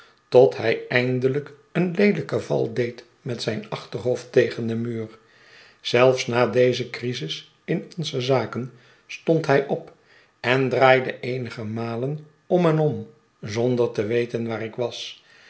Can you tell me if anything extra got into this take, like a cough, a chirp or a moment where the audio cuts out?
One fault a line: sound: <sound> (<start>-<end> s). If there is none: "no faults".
no faults